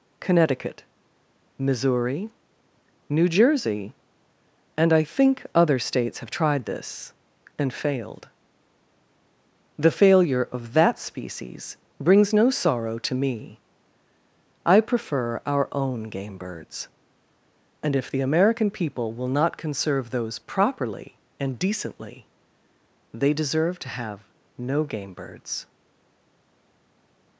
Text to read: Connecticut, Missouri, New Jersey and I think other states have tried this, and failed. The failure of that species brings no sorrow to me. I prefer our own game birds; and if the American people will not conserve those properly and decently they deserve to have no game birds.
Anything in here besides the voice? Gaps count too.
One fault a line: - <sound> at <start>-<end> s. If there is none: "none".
none